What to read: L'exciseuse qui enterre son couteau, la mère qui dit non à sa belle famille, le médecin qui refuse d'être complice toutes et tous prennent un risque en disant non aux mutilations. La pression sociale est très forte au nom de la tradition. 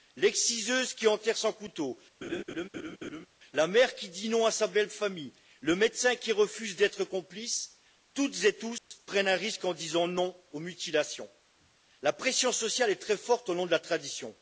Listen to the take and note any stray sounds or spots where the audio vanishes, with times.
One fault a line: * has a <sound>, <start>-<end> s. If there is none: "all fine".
* has a laugh, 2.2-3.3 s
* has a dropout, 8.8-8.9 s